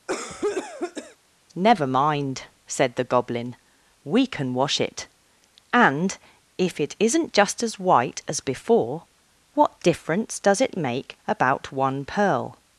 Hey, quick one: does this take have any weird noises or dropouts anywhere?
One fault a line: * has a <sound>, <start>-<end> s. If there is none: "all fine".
* has a cough, 0.1-1.2 s